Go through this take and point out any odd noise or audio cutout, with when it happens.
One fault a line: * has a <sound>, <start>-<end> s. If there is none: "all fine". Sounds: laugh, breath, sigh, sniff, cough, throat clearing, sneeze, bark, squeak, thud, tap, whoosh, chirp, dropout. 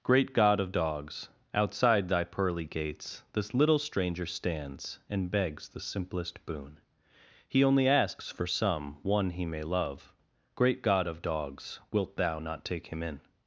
all fine